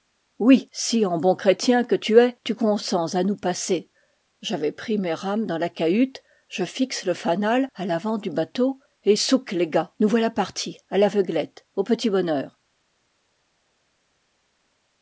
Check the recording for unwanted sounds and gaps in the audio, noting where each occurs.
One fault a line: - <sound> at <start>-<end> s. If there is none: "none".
none